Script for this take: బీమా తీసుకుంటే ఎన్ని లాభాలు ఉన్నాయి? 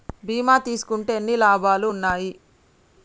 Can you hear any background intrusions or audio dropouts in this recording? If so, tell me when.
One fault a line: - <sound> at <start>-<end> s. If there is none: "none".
none